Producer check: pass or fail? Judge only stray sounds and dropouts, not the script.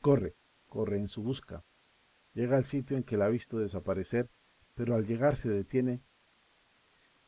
pass